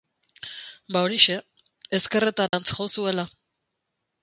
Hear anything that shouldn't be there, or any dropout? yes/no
yes